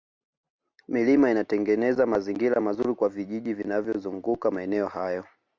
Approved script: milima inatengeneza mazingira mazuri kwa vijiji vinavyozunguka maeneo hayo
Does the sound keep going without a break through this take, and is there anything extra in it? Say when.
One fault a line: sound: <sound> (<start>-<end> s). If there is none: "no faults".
no faults